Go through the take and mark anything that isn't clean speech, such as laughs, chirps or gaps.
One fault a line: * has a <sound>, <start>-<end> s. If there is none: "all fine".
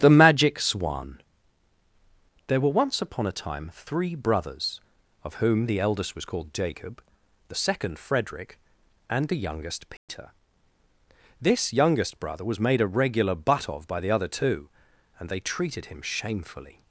* has a dropout, 10.0-10.1 s